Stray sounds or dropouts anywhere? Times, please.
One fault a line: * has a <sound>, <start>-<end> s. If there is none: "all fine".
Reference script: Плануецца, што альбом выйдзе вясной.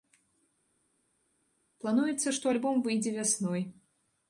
all fine